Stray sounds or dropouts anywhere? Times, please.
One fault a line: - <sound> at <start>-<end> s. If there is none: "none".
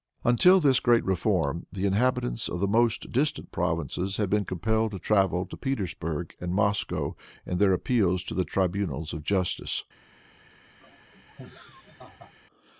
- laugh at 10.8-12.3 s